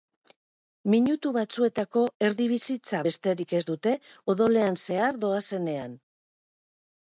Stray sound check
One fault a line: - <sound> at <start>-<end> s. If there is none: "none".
none